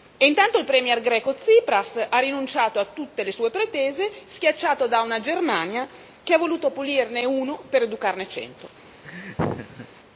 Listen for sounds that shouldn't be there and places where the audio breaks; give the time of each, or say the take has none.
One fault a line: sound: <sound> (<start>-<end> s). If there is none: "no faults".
sound: laugh (9.0-9.9 s)